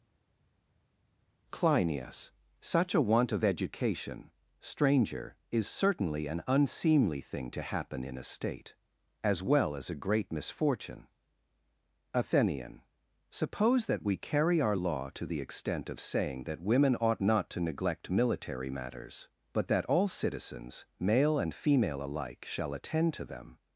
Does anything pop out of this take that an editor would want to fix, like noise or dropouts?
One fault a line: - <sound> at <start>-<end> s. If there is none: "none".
none